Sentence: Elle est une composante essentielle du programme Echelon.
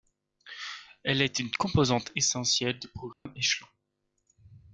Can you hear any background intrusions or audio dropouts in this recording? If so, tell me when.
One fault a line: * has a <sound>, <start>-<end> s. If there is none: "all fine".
* has a dropout, 3.1-3.3 s